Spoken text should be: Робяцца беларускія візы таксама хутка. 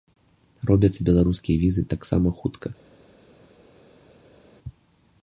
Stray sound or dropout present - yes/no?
no